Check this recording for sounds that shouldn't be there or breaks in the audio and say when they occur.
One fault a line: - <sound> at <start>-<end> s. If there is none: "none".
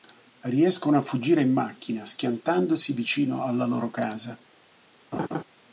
- laugh at 5.1-5.4 s